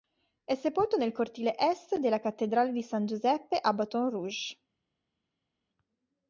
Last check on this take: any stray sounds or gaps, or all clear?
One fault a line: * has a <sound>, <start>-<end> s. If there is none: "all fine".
all fine